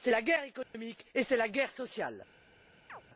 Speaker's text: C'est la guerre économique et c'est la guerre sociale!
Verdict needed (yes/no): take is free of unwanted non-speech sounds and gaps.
no